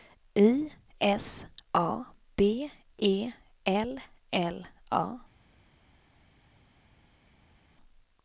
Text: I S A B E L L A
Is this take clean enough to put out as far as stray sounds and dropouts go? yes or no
yes